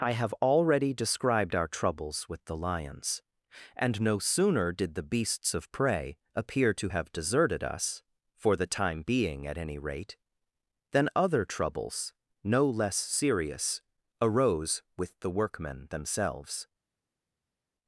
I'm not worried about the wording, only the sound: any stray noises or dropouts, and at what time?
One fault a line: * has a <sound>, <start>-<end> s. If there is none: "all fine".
all fine